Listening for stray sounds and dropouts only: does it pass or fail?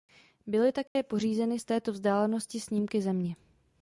fail